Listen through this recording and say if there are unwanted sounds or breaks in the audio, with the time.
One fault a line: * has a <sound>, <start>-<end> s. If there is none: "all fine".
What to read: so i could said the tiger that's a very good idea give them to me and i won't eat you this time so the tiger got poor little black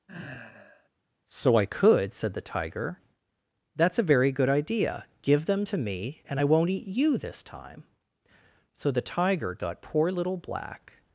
* has a sigh, 0.1-0.9 s